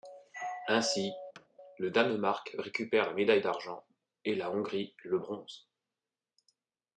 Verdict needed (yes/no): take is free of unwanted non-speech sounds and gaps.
no